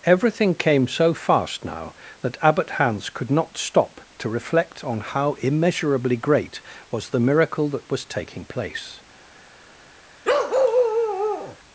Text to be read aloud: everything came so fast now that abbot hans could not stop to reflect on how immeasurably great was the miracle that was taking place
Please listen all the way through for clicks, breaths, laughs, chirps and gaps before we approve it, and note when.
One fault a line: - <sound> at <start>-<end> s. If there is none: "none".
- bark at 10.2-11.6 s